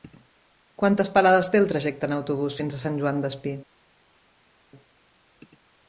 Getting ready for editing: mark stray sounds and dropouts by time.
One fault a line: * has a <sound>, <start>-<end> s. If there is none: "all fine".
all fine